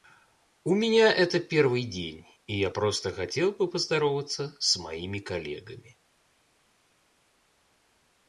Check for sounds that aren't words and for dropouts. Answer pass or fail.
pass